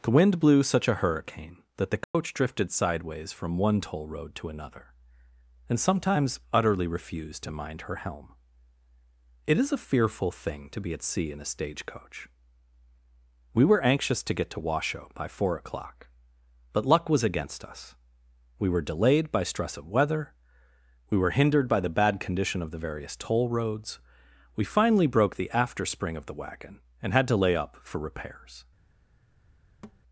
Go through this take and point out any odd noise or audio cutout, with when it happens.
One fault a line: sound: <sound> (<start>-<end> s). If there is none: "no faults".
sound: dropout (2.0-2.1 s)
sound: thud (29.8-30.0 s)